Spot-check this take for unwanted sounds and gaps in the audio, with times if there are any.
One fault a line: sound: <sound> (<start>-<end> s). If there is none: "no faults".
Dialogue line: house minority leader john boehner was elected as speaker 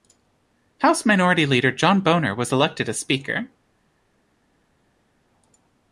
no faults